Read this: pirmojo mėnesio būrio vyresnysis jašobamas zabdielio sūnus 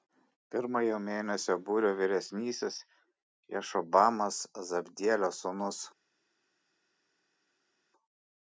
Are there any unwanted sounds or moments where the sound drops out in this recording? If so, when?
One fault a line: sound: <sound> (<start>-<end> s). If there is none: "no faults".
no faults